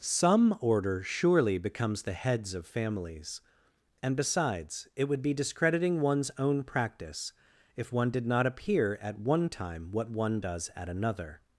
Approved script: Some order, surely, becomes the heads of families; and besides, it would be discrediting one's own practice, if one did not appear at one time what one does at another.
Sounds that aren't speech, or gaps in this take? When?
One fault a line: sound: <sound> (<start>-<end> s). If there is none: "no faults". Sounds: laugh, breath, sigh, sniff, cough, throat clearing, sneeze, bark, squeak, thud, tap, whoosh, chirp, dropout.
no faults